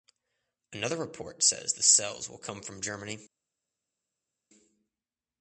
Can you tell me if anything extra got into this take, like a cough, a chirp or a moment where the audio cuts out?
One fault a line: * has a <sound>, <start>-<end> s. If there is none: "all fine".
all fine